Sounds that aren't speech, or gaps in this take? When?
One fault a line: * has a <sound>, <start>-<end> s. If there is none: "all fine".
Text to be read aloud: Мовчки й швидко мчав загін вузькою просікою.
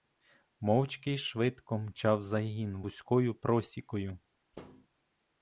* has a thud, 4.5-4.9 s